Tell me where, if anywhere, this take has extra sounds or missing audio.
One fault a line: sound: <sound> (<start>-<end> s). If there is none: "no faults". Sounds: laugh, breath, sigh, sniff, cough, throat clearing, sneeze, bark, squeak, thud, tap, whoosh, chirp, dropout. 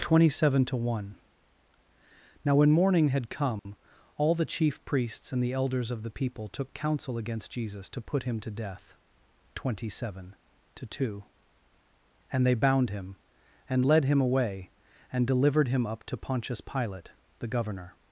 sound: dropout (3.6-3.7 s)